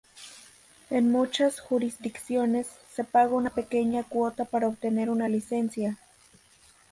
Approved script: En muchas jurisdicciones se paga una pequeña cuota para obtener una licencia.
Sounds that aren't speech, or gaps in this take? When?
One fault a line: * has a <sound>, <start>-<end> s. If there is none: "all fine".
all fine